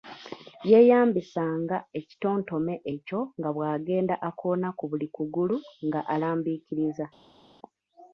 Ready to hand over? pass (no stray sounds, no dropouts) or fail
pass